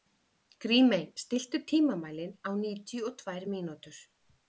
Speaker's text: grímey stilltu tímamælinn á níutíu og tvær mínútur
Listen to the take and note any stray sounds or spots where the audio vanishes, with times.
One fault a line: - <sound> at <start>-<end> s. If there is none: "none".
none